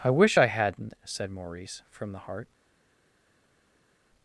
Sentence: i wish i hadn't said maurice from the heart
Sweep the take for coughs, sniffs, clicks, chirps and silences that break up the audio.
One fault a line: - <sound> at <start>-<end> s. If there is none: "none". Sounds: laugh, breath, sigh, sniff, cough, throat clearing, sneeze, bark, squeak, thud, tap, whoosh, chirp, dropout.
none